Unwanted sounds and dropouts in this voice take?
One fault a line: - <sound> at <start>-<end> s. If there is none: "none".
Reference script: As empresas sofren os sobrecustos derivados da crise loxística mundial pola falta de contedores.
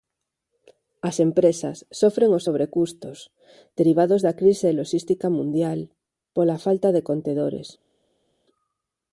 none